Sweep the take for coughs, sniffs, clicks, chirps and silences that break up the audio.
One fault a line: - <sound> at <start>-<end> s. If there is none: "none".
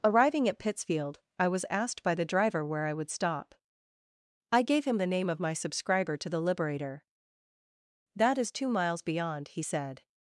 none